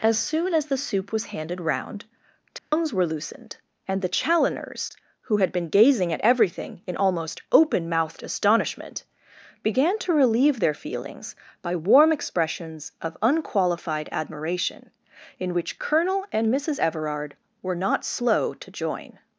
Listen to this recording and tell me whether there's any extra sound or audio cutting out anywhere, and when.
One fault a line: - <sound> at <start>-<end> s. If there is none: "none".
- dropout at 2.6-2.7 s